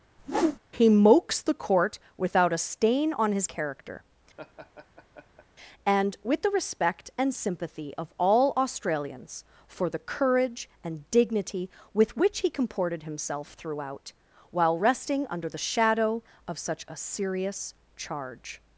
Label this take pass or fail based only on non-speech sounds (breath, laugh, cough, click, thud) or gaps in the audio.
fail